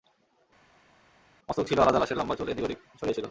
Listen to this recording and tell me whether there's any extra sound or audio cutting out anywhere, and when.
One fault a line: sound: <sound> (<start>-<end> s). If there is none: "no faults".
no faults